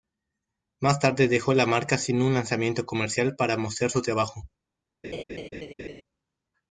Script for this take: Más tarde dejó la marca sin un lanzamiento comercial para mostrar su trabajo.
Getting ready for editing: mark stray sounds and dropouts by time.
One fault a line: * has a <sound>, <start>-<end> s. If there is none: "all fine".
* has a laugh, 5.0-6.0 s